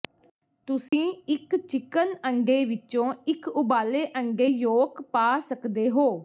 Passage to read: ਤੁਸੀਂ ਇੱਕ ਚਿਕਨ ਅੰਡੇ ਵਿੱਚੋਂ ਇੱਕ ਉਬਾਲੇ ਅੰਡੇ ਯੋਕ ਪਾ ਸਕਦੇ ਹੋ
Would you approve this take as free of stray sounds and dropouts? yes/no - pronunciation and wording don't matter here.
no